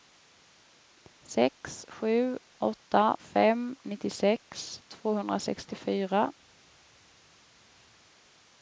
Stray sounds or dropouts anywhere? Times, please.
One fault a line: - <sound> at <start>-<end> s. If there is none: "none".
none